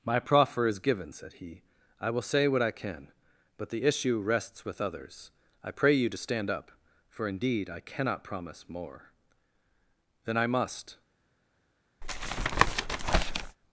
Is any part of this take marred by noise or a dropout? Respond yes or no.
yes